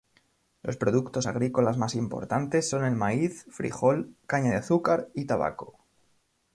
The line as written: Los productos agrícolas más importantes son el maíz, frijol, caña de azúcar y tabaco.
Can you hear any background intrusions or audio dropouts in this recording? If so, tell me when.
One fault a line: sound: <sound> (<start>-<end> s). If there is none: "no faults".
no faults